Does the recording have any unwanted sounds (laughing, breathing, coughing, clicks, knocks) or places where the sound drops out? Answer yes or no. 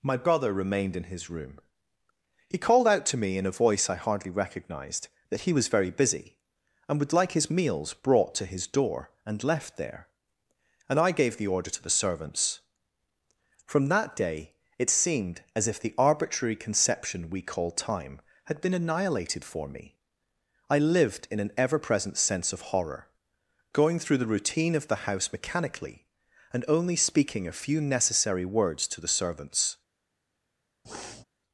yes